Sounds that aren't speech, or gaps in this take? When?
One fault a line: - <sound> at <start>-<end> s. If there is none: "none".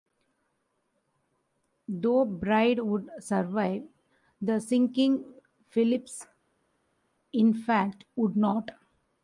none